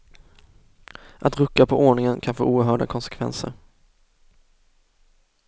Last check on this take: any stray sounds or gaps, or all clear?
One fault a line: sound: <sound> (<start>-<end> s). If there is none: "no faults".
no faults